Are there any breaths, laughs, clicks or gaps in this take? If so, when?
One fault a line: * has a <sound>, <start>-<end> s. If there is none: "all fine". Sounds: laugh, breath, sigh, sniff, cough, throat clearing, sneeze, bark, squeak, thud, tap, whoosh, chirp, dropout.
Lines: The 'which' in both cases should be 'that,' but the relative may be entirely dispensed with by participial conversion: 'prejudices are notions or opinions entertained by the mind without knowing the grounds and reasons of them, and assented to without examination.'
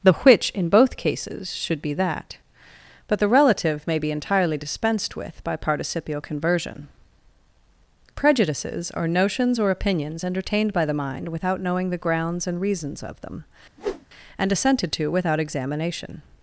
* has a whoosh, 13.8-14.1 s